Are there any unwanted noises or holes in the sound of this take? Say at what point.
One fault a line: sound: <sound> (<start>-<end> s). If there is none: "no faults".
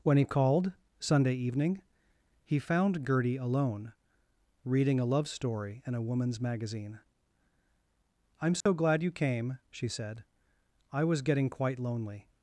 sound: dropout (8.6-8.7 s)